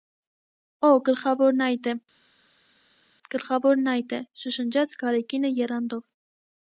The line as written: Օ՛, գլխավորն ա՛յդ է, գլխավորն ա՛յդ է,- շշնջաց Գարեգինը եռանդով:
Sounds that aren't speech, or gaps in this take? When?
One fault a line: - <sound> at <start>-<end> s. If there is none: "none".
none